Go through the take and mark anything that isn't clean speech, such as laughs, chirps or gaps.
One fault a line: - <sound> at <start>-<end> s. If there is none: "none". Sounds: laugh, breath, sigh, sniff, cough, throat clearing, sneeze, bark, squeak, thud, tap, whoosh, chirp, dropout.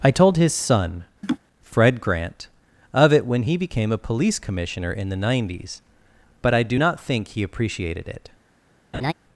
- laugh at 1.2-1.4 s
- laugh at 8.9-9.1 s